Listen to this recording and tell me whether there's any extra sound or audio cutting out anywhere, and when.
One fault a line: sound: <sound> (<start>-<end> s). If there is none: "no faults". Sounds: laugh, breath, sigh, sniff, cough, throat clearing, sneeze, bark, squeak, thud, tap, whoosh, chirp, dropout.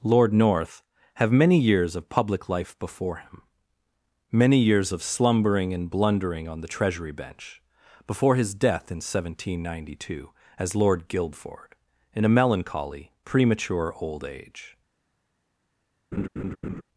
sound: laugh (16.1-16.8 s)